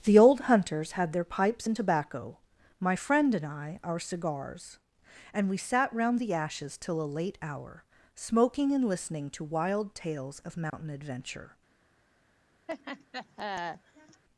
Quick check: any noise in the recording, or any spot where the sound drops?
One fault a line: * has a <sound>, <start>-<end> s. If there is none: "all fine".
* has a dropout, 10.7-10.7 s
* has a laugh, 12.7-14.2 s